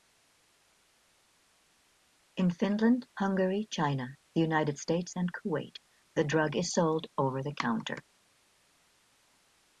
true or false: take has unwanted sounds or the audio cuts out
false